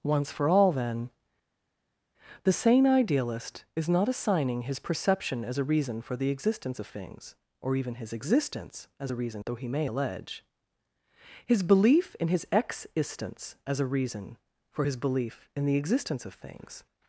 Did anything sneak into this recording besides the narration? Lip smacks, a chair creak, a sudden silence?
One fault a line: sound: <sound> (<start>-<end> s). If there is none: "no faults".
no faults